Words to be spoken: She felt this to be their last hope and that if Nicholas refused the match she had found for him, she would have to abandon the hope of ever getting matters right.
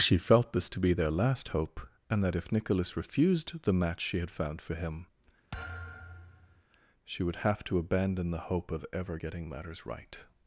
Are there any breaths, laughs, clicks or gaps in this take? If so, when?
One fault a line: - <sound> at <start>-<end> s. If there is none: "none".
- thud at 5.5-6.6 s